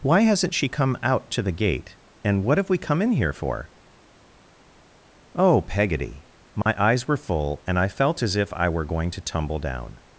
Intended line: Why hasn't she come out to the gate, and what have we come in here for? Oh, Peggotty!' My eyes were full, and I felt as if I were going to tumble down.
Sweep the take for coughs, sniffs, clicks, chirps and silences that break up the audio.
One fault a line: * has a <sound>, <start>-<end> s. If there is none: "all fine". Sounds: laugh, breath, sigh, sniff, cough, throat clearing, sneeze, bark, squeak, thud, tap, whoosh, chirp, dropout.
* has a dropout, 6.6-6.7 s